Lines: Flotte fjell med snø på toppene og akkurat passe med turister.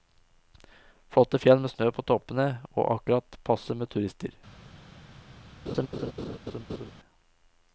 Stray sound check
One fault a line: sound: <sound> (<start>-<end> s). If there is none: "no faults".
sound: laugh (5.7-6.9 s)